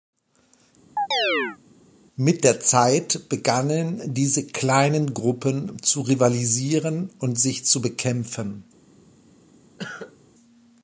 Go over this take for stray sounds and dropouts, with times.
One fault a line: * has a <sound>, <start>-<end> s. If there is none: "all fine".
* has a chirp, 1.0-1.6 s
* has a cough, 9.8-10.2 s